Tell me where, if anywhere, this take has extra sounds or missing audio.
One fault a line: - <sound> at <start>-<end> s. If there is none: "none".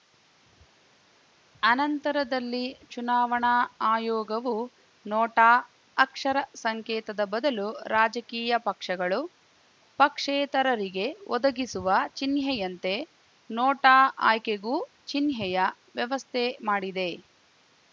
none